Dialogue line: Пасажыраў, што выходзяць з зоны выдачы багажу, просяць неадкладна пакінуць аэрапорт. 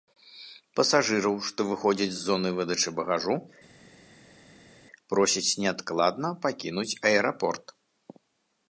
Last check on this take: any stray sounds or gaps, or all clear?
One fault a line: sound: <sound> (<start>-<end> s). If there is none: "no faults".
no faults